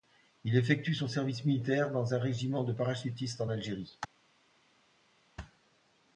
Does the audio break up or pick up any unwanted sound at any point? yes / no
no